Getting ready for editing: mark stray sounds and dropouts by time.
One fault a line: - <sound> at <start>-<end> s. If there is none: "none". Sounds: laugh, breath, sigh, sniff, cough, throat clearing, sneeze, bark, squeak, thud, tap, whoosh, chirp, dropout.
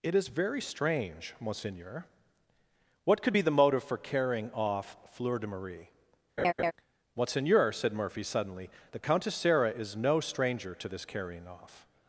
- laugh at 6.4-6.7 s